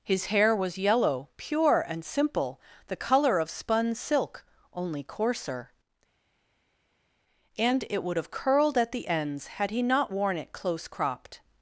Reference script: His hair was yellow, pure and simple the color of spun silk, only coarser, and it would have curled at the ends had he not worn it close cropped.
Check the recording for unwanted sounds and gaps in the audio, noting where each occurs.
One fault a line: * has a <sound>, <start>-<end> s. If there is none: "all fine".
all fine